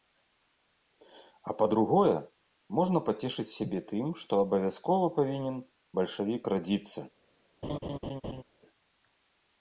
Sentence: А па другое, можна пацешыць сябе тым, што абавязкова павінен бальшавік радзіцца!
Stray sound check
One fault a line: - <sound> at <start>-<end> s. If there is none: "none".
- laugh at 7.6-8.4 s